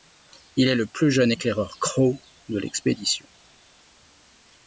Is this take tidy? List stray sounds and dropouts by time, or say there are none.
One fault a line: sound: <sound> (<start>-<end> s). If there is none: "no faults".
no faults